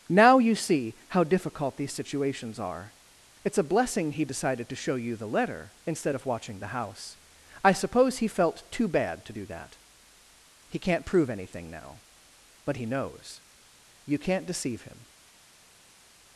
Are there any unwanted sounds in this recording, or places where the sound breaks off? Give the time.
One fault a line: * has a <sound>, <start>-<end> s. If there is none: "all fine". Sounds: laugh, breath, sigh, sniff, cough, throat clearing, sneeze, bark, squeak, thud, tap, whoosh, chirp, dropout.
all fine